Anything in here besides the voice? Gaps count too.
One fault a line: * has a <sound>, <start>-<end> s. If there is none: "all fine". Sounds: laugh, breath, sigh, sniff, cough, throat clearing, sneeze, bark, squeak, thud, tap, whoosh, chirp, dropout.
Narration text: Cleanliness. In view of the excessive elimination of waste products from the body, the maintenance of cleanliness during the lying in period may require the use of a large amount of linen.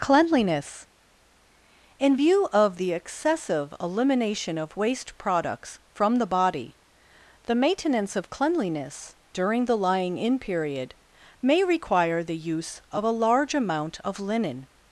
all fine